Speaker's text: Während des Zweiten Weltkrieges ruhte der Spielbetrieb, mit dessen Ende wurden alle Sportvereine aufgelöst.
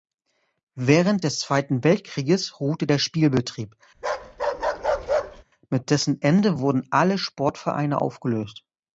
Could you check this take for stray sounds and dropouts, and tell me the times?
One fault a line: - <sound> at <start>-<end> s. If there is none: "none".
- bark at 3.9-5.4 s